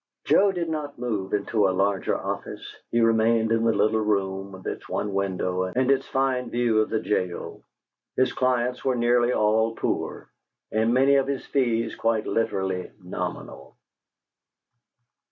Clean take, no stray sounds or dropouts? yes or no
yes